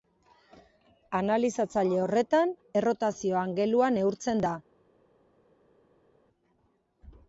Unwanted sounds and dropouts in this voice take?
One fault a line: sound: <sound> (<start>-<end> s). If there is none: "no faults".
no faults